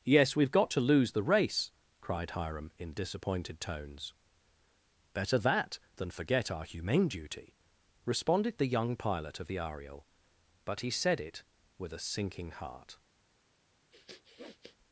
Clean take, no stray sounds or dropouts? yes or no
no